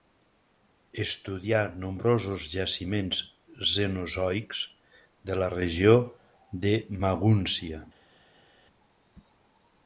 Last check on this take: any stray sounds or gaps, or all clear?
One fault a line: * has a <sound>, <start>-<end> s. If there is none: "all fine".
all fine